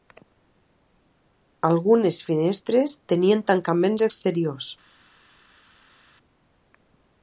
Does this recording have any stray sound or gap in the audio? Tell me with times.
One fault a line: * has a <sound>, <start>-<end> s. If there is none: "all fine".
all fine